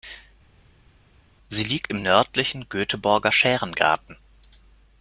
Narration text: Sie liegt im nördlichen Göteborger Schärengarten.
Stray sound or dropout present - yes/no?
no